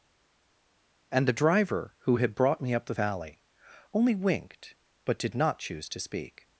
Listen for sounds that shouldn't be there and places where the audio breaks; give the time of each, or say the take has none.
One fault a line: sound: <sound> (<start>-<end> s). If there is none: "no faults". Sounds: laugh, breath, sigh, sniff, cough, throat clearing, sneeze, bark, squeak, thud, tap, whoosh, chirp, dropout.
no faults